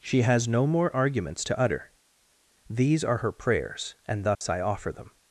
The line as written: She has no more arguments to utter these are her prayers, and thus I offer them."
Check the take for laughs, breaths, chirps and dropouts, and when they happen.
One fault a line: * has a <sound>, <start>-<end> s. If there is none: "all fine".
* has a dropout, 4.3-4.4 s